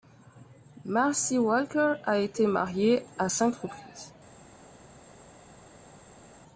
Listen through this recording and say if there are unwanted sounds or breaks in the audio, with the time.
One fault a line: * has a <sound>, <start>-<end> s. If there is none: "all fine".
all fine